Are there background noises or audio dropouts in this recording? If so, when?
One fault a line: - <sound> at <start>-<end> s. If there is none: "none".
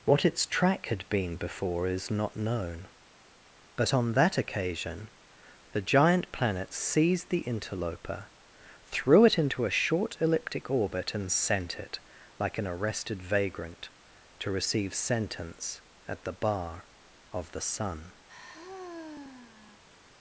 - sigh at 18.3-19.8 s